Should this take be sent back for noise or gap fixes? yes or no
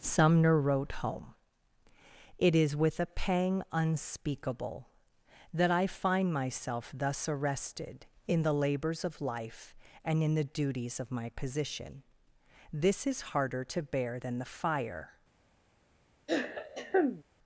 yes